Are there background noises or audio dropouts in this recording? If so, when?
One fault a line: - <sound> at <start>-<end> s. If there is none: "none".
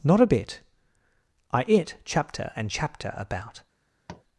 - tap at 4.1-4.2 s